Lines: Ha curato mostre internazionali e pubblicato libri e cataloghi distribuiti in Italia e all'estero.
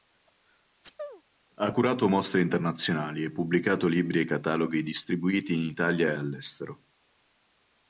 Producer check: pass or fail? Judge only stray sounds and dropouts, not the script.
fail